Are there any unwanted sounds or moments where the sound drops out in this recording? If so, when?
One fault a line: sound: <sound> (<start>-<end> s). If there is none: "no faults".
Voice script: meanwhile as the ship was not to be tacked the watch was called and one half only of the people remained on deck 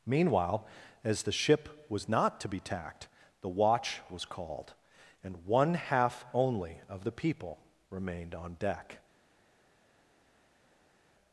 no faults